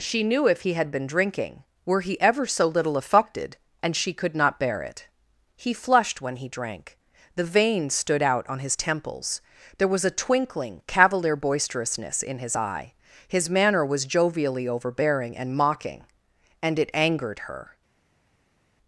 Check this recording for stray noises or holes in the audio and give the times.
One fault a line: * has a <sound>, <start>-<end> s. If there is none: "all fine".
all fine